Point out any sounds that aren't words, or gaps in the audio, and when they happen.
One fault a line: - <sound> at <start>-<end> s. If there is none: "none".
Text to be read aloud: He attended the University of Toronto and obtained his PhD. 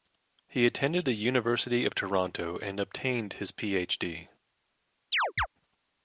- chirp at 5.1-5.5 s